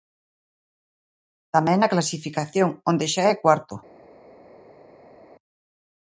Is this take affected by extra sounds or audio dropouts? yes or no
no